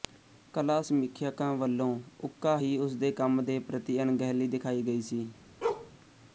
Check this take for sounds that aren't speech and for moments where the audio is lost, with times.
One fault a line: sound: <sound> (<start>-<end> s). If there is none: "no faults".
sound: bark (5.6-5.9 s)